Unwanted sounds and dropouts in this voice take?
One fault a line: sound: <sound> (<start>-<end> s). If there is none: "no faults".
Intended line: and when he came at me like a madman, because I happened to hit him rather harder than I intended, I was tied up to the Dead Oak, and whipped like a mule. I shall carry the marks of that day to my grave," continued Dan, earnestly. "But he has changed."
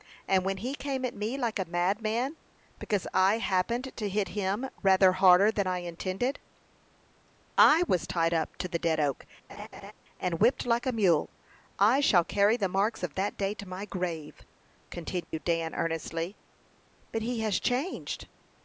sound: laugh (9.5-9.9 s)
sound: dropout (15.2-15.3 s)